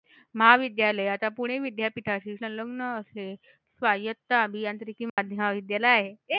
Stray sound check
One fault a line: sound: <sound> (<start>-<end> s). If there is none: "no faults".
sound: dropout (5.1-5.2 s)